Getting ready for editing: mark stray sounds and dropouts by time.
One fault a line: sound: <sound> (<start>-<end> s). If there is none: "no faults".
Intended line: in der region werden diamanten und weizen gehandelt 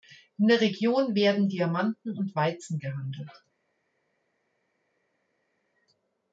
no faults